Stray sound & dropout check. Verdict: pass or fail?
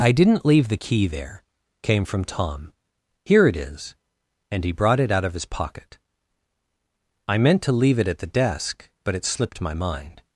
pass